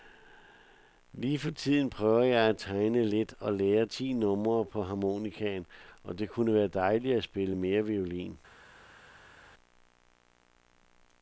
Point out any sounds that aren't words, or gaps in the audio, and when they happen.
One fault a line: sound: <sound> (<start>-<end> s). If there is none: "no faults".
no faults